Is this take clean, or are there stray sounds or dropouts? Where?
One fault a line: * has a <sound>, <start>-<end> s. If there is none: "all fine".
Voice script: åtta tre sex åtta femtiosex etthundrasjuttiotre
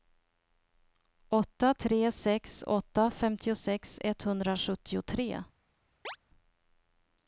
* has a chirp, 6.0-6.2 s